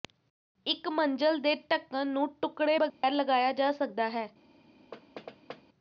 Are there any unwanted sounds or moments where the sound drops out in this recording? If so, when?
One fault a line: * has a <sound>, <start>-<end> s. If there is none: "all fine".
* has a dropout, 2.9-3.0 s
* has a thud, 4.9-5.6 s